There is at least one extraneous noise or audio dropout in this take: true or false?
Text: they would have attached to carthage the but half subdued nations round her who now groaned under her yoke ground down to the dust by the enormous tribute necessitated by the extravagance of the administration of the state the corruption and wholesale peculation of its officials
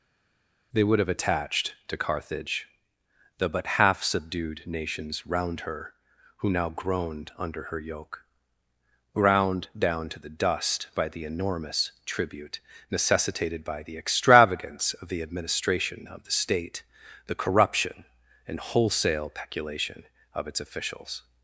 false